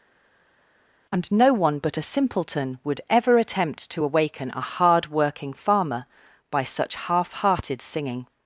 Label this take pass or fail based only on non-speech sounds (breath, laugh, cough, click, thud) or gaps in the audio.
pass